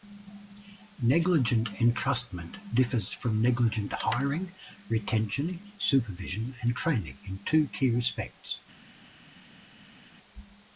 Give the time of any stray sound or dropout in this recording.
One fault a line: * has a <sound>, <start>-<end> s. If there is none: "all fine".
all fine